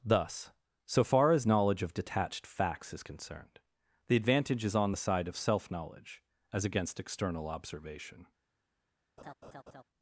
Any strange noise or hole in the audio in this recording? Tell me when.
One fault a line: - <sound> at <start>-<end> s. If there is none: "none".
- laugh at 9.2-9.8 s